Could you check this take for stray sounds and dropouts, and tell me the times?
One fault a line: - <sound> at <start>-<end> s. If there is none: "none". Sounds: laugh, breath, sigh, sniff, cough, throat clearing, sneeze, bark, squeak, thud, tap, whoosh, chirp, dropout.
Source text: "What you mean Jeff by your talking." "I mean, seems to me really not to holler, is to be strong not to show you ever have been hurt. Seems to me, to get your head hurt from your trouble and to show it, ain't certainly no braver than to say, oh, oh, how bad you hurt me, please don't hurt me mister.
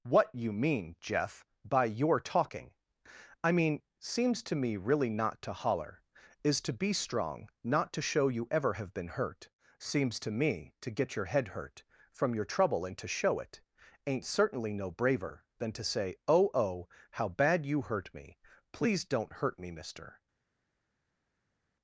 none